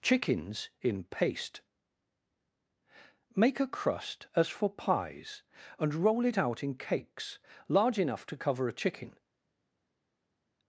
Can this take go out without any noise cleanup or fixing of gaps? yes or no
yes